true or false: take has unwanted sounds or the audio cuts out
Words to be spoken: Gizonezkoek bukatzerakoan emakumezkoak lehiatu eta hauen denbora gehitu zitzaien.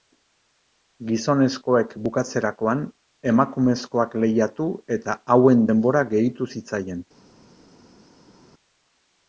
false